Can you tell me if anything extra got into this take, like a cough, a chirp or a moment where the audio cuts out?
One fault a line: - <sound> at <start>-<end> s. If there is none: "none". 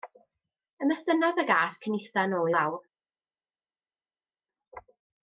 none